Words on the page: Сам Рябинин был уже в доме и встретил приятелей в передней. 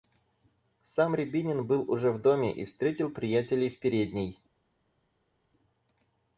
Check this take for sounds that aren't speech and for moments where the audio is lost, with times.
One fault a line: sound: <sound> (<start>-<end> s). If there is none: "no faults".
no faults